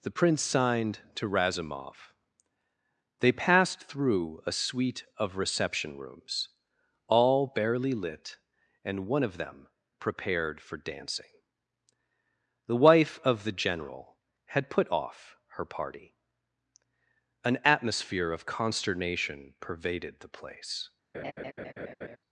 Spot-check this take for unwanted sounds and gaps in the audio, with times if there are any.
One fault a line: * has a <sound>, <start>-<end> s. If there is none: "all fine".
* has a laugh, 21.1-22.2 s